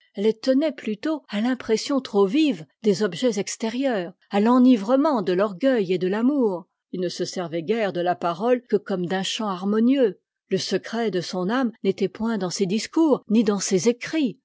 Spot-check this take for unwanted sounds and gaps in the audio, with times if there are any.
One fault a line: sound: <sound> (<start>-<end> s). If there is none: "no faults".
no faults